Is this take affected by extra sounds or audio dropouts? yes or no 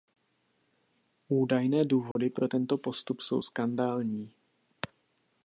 yes